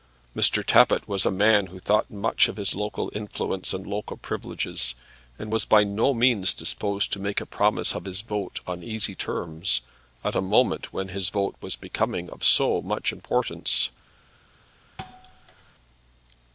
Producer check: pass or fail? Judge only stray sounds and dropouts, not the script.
fail